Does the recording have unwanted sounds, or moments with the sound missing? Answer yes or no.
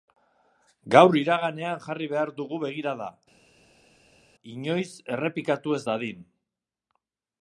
no